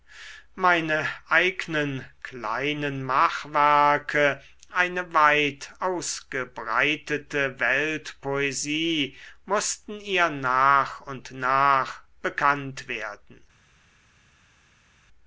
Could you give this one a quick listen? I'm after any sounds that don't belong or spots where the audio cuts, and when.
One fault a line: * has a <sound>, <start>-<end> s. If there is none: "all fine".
all fine